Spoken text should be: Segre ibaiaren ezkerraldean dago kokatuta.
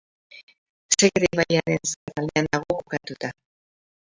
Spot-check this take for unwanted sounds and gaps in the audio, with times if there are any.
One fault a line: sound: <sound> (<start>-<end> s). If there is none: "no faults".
sound: dropout (2.0-2.1 s)